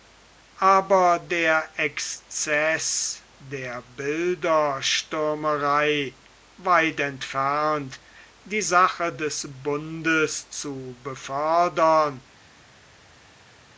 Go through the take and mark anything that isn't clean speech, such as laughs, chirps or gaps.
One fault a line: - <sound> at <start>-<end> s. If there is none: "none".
none